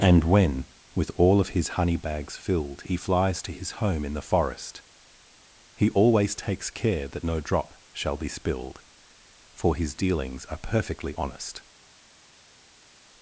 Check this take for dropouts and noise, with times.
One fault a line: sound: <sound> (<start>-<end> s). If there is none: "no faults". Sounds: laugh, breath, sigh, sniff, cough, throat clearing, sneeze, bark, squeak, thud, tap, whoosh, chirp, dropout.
no faults